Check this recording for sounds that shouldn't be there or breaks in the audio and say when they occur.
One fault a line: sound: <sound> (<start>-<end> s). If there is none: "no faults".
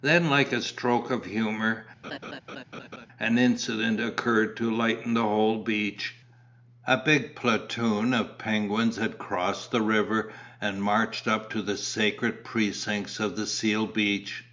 sound: laugh (2.0-3.1 s)